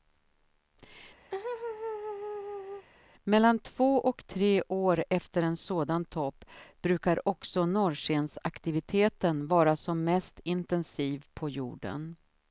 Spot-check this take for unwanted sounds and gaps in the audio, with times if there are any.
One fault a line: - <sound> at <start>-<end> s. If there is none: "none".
- laugh at 1.3-2.9 s